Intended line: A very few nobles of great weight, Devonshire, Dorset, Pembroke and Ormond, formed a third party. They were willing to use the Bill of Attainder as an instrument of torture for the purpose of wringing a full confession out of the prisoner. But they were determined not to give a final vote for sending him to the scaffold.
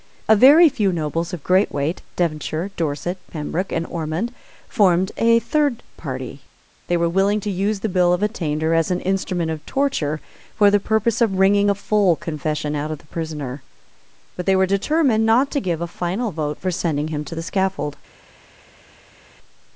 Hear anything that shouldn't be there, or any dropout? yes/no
no